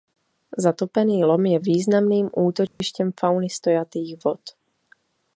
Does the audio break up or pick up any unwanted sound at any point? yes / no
yes